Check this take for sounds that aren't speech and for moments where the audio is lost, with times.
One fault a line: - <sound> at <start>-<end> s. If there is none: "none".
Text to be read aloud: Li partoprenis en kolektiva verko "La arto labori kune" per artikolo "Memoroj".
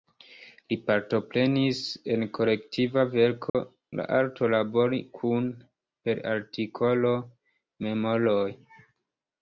- dropout at 3.5-3.5 s